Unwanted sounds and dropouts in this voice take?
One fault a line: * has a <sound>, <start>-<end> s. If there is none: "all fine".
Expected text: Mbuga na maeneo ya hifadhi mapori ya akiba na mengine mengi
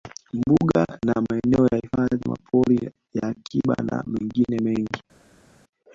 all fine